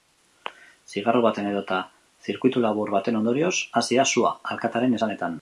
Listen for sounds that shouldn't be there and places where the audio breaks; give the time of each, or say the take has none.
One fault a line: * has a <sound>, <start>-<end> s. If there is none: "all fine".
all fine